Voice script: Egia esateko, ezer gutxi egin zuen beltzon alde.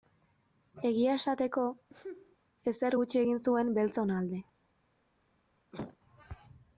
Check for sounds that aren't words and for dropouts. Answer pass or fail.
fail